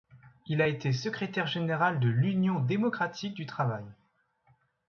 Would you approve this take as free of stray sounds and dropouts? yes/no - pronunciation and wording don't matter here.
yes